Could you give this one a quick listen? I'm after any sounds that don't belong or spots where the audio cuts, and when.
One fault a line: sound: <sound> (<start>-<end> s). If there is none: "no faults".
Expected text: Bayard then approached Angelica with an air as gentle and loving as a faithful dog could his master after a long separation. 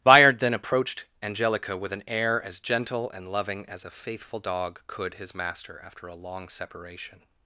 no faults